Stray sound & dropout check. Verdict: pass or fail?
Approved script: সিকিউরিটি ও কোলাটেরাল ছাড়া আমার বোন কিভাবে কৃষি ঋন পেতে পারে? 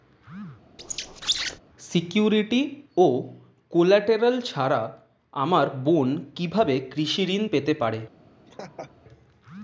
fail